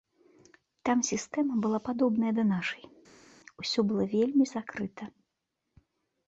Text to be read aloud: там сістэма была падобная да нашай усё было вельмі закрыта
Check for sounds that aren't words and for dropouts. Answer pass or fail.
pass